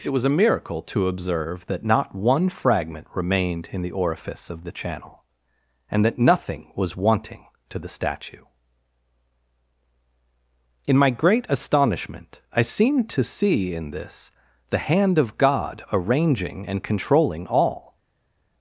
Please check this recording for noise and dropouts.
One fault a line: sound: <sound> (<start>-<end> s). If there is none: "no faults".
no faults